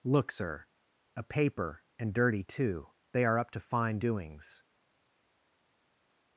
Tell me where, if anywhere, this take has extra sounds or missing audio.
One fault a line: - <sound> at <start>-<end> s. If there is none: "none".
none